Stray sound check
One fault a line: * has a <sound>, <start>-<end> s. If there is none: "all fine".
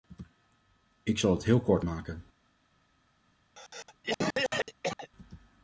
* has a cough, 3.5-5.1 s